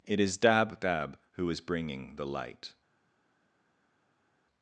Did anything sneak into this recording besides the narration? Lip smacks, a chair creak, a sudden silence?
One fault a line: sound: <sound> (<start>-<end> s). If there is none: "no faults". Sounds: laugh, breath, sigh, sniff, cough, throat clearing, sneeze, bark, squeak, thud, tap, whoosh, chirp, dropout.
no faults